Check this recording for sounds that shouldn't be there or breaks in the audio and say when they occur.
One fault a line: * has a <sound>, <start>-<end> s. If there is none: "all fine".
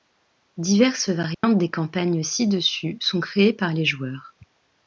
* has a dropout, 1.3-1.4 s